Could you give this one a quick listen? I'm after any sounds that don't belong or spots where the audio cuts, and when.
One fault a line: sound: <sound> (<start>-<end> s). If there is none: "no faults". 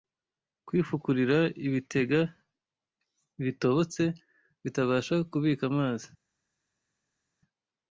no faults